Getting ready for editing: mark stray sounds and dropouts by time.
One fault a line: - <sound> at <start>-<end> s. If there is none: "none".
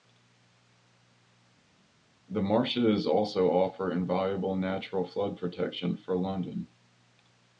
none